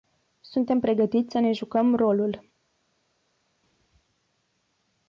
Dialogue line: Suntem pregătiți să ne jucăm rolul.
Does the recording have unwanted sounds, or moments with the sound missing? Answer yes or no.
no